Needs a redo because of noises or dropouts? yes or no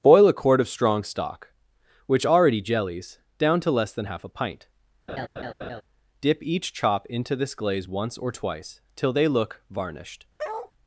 yes